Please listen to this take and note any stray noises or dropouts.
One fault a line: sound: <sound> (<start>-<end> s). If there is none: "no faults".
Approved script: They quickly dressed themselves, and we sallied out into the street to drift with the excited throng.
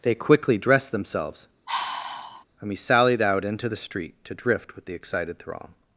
sound: sigh (1.7-2.4 s)